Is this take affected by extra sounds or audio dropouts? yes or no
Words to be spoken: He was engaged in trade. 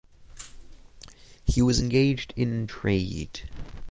no